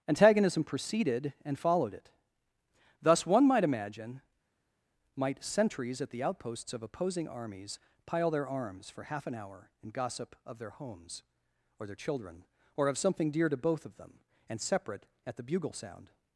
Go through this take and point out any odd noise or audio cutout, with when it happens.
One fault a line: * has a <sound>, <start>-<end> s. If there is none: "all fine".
all fine